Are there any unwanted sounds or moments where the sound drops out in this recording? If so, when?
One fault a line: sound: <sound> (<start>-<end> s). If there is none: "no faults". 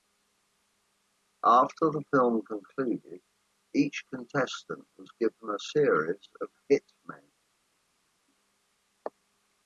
no faults